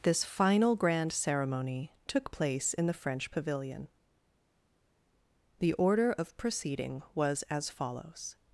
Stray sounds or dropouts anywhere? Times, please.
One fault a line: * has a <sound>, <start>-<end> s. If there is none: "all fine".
all fine